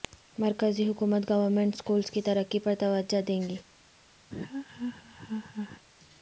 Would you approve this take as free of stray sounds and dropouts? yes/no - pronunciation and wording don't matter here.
no